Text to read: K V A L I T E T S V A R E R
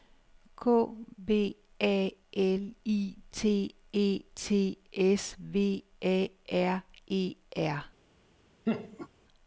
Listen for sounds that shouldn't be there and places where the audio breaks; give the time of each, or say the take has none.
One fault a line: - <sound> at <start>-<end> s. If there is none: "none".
- laugh at 8.7-9.1 s